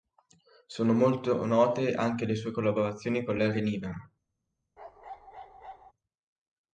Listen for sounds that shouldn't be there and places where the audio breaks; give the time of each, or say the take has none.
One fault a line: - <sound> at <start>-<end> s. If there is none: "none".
- bark at 4.8-5.9 s